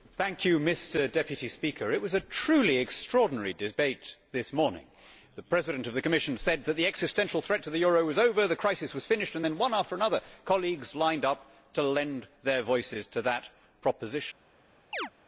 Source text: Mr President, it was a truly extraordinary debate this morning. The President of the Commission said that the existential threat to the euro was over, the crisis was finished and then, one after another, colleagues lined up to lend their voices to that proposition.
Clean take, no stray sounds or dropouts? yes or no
no